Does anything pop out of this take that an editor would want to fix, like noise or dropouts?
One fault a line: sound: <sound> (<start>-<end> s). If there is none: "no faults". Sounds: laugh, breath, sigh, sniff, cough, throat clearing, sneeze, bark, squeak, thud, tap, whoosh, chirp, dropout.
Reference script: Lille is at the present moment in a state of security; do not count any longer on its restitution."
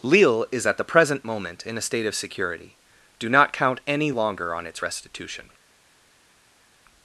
no faults